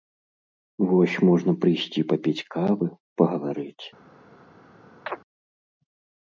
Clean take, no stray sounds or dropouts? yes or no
no